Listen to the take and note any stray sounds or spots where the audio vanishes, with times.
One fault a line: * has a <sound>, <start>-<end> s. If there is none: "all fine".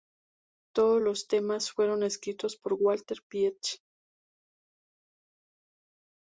all fine